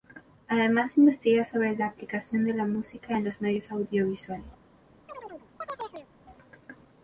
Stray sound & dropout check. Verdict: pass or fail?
fail